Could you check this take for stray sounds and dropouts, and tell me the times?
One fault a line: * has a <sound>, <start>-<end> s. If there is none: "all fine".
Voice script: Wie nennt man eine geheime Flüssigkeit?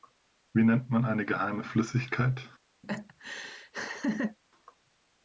* has a laugh, 2.8-4.4 s